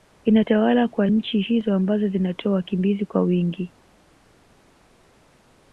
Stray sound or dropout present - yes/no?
no